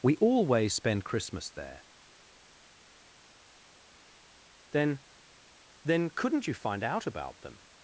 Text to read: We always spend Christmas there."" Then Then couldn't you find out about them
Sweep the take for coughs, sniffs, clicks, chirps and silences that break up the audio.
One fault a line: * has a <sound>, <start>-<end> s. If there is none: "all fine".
all fine